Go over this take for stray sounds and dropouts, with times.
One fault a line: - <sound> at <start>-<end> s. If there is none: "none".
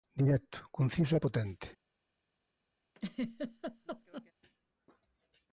- laugh at 2.9-4.3 s